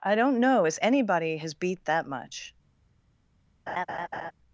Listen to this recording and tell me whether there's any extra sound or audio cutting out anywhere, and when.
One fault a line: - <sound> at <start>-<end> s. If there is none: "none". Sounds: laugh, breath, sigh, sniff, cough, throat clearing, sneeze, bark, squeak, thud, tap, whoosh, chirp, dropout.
- laugh at 3.7-4.3 s